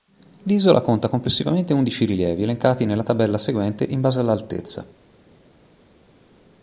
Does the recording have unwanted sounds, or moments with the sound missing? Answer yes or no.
no